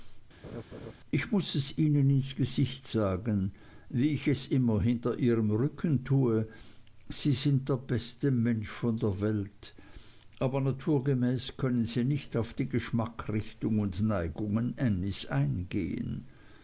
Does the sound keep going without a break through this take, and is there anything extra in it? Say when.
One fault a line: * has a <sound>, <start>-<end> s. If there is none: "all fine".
* has a laugh, 0.4-0.9 s